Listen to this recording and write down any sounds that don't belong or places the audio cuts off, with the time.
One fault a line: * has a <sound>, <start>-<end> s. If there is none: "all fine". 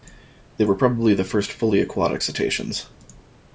all fine